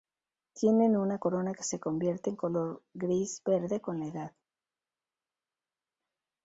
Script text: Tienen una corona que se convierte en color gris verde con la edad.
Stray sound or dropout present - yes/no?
no